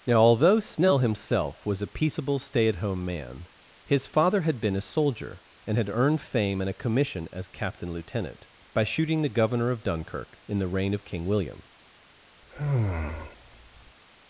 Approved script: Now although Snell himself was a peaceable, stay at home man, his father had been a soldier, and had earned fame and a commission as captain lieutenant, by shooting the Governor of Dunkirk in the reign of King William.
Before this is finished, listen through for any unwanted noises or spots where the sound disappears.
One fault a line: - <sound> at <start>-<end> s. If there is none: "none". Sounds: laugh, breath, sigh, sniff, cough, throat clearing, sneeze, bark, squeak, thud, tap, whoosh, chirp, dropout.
- sigh at 12.4-14.0 s